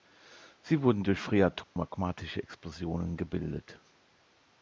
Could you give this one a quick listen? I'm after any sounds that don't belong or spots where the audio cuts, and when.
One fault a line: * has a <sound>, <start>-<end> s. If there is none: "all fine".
* has a dropout, 1.6-1.8 s